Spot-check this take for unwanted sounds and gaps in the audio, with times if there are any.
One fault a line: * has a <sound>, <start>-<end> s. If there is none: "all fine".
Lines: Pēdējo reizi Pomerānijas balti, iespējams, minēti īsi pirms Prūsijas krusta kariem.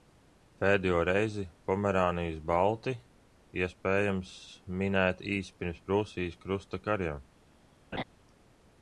* has a laugh, 7.9-8.0 s